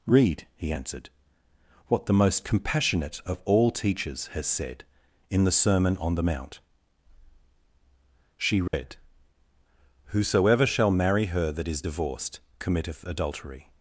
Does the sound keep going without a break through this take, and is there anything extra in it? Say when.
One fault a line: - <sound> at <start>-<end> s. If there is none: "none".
- dropout at 8.7-8.7 s